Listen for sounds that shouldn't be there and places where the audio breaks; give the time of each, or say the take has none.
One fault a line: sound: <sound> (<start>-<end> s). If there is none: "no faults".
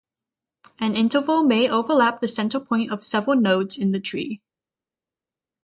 no faults